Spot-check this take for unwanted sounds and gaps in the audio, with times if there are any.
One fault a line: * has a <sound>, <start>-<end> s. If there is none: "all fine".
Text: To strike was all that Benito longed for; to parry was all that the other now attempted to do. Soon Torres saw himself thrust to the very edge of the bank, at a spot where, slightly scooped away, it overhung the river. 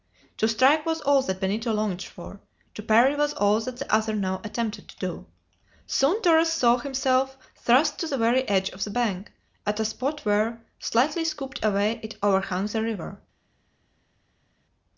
all fine